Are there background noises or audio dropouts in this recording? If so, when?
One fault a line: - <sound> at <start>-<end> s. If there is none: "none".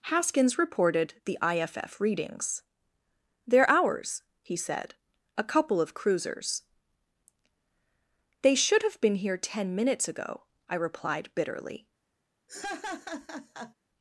- laugh at 12.5-13.7 s